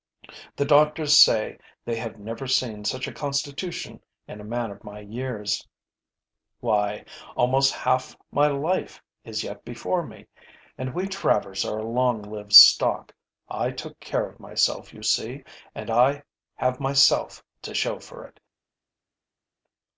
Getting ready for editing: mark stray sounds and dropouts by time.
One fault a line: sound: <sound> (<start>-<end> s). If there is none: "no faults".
no faults